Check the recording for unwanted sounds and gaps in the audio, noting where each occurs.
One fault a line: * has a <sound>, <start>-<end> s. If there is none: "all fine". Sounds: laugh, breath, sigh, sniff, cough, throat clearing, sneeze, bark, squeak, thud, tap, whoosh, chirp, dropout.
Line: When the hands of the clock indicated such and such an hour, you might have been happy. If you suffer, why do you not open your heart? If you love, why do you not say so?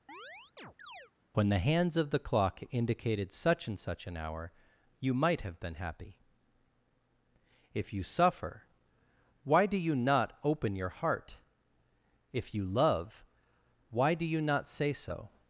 * has a chirp, 0.1-1.1 s